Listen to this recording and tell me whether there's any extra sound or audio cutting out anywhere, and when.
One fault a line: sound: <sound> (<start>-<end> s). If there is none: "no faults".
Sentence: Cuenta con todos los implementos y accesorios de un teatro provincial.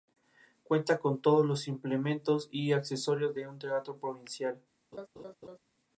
sound: laugh (4.9-5.6 s)